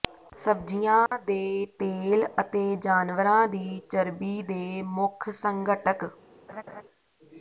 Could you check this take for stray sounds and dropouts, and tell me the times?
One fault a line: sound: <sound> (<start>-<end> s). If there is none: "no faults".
sound: dropout (1.1-1.1 s)
sound: laugh (6.5-6.8 s)